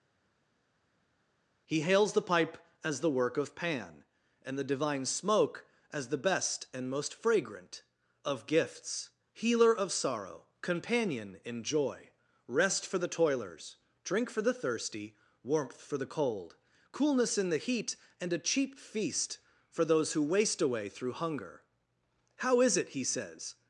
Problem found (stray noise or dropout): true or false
false